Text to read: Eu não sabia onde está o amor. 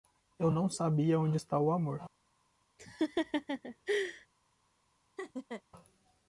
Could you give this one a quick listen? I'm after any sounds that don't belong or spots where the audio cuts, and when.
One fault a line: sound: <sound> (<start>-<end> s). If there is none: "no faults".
sound: laugh (2.8-4.3 s)
sound: laugh (5.2-5.6 s)